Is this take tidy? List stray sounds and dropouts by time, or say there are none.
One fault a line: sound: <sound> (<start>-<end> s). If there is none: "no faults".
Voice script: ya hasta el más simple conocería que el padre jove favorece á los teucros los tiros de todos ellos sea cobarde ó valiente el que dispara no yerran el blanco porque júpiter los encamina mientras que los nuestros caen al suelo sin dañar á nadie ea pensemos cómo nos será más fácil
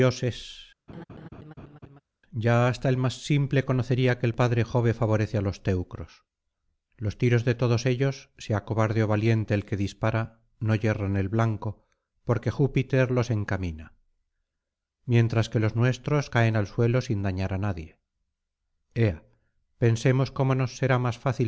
sound: laugh (0.9-2.0 s)